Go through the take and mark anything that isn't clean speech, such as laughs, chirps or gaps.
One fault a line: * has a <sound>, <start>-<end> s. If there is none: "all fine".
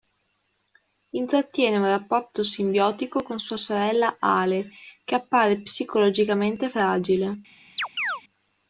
* has a chirp, 7.8-8.2 s